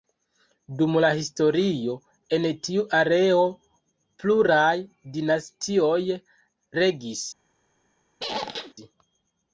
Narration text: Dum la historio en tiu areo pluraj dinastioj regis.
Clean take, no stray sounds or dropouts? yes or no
no